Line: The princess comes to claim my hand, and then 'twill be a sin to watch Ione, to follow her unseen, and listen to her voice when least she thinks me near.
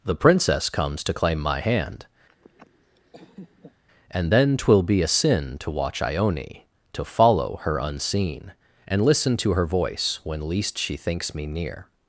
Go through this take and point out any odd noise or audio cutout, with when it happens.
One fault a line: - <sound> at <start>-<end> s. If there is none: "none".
- laugh at 2.3-3.8 s